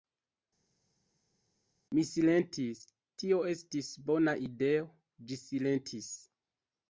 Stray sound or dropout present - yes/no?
no